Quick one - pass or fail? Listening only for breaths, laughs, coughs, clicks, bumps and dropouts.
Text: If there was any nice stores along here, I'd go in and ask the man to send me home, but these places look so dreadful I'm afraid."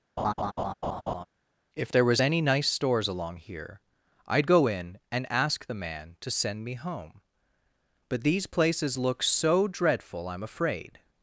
fail